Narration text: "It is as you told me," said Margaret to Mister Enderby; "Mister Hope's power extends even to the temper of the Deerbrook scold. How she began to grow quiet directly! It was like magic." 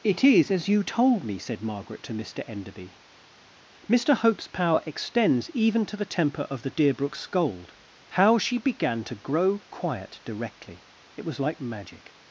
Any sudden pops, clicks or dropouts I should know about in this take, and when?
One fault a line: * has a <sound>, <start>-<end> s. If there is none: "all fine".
all fine